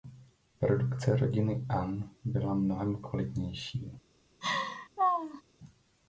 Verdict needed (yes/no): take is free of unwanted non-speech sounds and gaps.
no